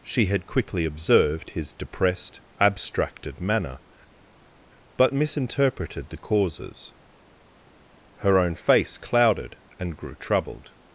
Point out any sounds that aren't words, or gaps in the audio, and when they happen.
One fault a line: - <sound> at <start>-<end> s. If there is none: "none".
none